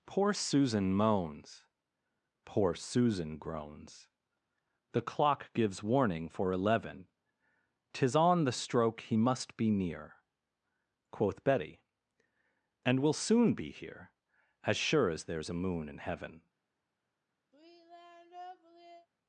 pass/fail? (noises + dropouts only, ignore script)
fail